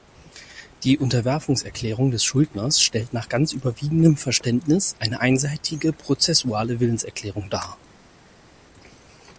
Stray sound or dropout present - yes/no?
no